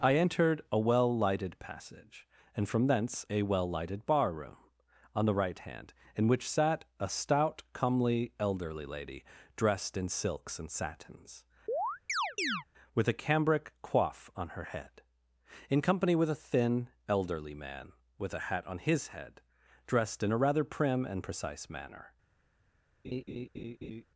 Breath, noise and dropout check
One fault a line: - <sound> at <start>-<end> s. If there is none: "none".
- chirp at 11.7-12.6 s
- laugh at 23.0-24.1 s